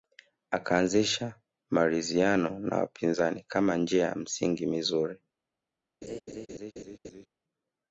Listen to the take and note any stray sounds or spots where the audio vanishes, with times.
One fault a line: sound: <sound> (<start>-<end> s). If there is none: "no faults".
sound: laugh (6.0-7.3 s)